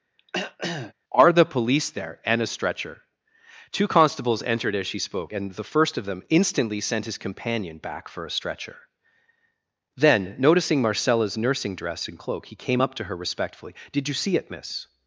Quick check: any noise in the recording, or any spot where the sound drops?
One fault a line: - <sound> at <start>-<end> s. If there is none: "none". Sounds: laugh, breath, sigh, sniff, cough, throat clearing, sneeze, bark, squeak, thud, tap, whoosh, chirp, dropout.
- throat clearing at 0.2-0.9 s